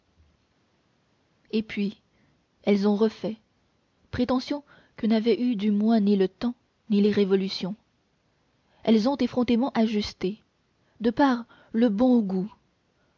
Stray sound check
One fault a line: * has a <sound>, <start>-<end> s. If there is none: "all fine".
all fine